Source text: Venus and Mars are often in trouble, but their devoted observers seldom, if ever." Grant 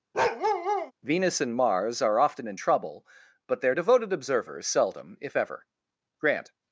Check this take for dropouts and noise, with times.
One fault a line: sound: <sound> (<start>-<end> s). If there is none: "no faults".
sound: bark (0.1-0.9 s)